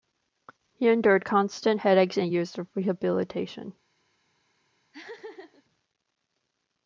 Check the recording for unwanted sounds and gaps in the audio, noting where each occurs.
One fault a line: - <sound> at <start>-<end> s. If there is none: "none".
- laugh at 4.9-5.6 s